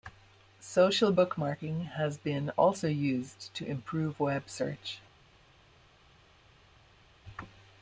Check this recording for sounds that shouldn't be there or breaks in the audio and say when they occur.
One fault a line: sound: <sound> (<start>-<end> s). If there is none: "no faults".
no faults